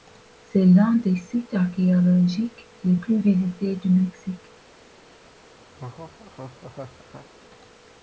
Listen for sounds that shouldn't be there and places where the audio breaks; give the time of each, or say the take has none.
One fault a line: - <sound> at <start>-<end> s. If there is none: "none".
- laugh at 5.7-7.3 s